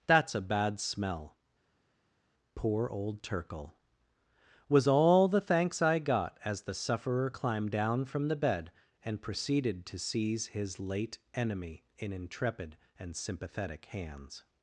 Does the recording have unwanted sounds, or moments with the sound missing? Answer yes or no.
no